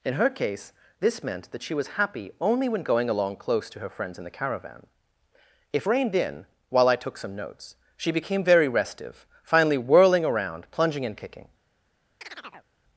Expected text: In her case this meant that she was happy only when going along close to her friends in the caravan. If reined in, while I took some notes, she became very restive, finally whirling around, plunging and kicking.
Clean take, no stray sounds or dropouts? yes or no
no